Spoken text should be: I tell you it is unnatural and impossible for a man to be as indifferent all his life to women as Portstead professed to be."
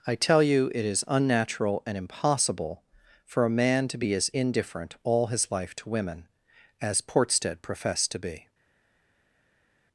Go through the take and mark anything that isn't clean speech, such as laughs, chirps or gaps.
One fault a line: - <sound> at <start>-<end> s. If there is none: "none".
none